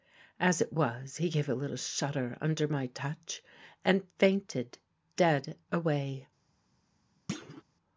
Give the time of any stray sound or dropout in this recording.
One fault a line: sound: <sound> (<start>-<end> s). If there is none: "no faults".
sound: thud (7.3-7.6 s)